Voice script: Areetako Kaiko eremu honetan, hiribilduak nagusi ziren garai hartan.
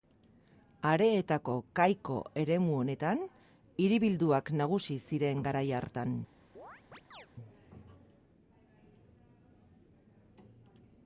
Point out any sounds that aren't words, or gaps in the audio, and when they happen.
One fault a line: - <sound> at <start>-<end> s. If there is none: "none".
- chirp at 6.6-7.3 s